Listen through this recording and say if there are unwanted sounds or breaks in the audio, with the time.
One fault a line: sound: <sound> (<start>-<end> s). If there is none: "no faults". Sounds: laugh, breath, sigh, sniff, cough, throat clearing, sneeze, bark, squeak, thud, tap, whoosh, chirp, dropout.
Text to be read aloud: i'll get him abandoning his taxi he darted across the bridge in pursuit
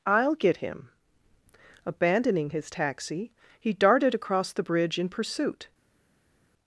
no faults